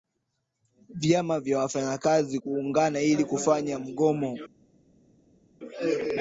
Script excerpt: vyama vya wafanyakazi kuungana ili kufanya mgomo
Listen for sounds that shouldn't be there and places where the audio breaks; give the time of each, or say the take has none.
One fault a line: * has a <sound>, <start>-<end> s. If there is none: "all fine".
all fine